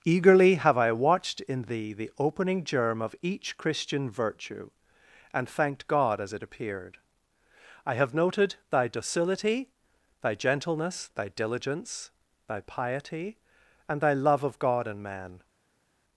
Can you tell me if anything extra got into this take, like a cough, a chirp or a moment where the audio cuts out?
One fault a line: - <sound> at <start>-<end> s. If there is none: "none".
none